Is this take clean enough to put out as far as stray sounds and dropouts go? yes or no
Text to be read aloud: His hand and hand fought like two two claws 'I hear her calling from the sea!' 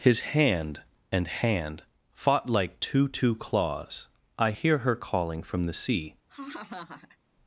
no